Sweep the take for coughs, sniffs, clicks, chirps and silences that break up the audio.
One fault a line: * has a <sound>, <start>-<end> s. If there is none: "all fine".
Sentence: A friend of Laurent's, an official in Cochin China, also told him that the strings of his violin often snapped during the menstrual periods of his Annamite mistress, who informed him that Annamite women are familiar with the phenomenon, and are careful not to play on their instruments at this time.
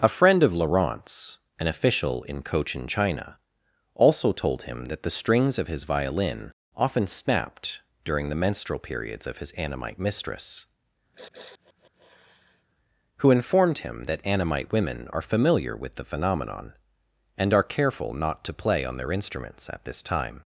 * has a sniff, 11.1-12.7 s